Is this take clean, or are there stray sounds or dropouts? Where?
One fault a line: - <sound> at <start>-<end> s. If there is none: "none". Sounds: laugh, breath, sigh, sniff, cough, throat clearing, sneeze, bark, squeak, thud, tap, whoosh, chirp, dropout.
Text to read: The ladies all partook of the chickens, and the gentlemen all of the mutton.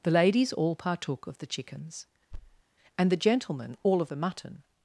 - thud at 2.3-2.6 s